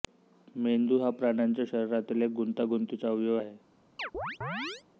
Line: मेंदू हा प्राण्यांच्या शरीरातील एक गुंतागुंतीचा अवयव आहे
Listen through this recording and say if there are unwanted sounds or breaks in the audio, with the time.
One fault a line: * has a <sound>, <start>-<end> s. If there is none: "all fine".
* has a chirp, 4.0-4.8 s